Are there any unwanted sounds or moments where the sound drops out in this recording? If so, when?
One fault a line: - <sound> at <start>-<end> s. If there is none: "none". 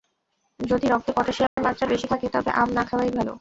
- dropout at 1.5-1.6 s